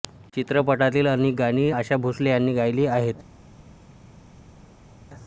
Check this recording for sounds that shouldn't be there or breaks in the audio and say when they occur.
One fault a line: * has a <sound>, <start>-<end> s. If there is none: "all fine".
all fine